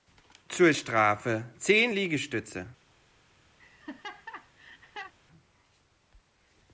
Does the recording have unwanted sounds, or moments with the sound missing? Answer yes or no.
yes